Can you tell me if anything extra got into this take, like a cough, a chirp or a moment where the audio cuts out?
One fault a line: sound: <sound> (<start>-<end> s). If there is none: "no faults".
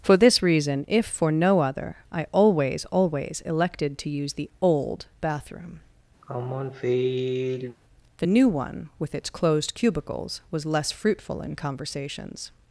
sound: sigh (6.2-7.8 s)